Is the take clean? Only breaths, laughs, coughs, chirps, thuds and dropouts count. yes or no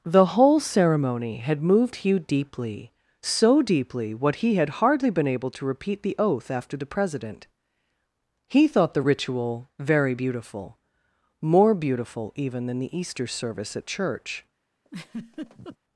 no